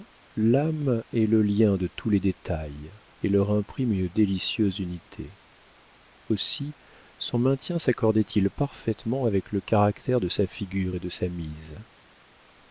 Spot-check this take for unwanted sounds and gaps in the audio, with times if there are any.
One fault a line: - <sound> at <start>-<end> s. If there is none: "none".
none